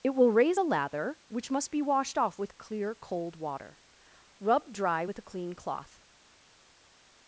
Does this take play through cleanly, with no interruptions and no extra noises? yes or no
yes